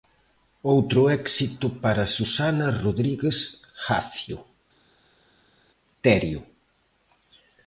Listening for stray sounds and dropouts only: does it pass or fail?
pass